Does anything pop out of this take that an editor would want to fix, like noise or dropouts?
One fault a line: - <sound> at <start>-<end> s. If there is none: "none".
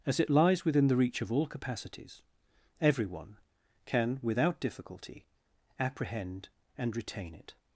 none